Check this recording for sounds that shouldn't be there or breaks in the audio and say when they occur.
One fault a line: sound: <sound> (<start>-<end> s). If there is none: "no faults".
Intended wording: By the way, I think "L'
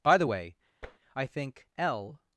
sound: tap (0.8-1.0 s)